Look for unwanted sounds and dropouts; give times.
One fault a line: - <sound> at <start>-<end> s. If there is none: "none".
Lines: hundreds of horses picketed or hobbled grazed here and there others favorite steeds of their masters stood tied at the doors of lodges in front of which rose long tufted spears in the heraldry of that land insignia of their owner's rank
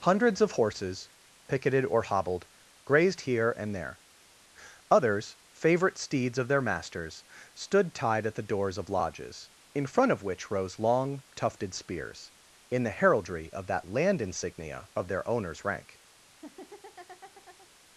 - laugh at 16.3-17.7 s